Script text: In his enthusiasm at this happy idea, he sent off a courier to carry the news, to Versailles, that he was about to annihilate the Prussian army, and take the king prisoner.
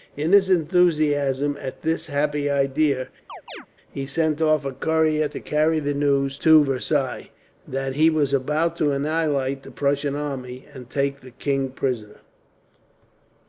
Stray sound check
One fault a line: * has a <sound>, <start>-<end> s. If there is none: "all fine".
* has a chirp, 3.3-3.7 s